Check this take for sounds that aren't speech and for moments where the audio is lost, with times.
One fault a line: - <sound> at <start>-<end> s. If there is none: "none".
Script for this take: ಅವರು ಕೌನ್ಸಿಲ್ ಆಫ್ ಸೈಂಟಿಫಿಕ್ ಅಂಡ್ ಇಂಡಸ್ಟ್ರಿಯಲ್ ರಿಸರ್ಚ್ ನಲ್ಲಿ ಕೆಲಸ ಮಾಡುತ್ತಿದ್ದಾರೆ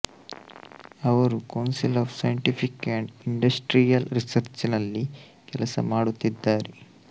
none